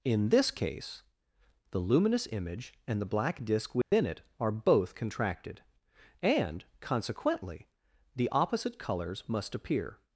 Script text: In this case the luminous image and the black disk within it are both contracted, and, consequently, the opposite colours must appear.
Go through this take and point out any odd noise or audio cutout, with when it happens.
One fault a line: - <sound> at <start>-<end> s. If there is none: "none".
- dropout at 3.8-3.9 s